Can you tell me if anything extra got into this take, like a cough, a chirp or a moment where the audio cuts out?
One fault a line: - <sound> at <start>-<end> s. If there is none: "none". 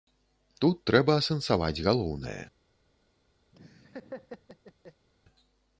- laugh at 3.5-5.1 s